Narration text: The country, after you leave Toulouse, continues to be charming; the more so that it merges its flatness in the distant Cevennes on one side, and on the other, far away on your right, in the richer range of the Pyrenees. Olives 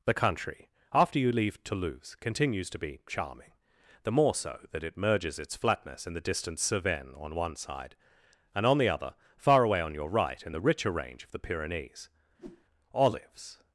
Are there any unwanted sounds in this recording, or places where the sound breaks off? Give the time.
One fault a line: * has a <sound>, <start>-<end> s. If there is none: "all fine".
* has a whoosh, 12.4-12.7 s